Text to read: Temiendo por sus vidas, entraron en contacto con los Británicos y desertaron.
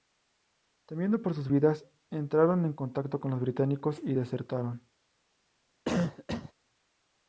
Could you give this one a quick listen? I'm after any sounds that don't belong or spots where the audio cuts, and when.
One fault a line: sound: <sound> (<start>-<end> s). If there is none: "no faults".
sound: cough (5.8-6.5 s)